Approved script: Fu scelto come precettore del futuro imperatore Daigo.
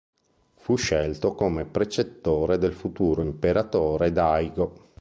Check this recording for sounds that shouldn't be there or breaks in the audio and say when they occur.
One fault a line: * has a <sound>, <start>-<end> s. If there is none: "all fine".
all fine